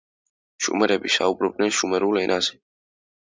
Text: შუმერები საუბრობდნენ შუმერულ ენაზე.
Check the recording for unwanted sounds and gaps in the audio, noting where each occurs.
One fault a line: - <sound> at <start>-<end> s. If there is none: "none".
none